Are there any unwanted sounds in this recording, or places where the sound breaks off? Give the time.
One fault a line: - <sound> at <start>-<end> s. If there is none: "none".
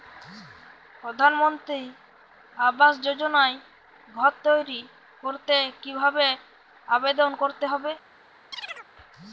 - chirp at 8.5-8.9 s